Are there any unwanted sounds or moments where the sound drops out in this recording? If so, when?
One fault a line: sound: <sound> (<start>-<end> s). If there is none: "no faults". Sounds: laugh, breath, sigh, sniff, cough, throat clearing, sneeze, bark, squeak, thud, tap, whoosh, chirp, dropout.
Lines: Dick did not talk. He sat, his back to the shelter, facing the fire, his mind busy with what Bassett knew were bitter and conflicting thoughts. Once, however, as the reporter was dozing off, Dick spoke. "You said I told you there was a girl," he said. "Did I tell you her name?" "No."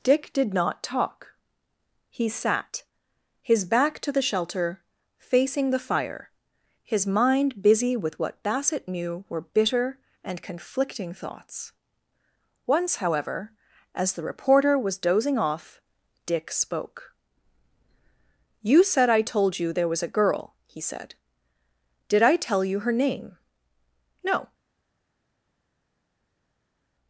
no faults